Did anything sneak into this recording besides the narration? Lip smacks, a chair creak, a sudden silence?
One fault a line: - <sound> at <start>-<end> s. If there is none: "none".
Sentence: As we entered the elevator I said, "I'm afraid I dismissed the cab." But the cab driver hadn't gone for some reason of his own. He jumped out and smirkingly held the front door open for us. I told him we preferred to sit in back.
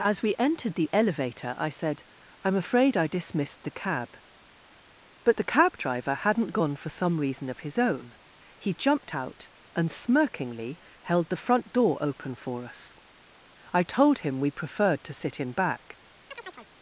- chirp at 16.3-16.7 s